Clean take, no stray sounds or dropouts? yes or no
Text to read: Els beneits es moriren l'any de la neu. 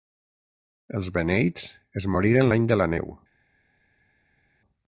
yes